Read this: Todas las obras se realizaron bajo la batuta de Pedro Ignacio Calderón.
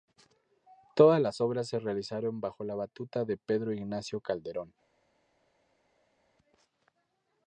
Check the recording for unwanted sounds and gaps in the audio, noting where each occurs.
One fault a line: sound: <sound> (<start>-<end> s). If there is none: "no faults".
no faults